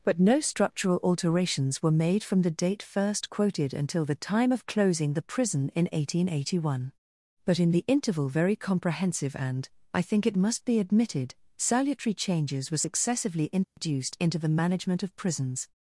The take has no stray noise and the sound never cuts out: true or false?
false